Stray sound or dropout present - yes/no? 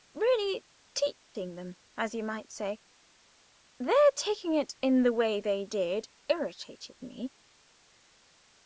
yes